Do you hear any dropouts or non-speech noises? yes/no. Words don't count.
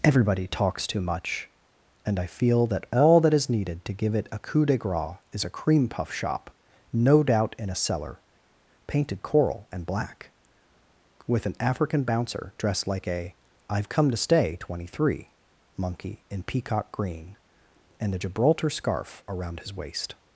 no